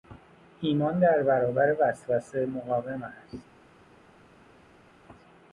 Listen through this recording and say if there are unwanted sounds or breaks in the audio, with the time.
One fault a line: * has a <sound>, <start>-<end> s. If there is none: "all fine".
all fine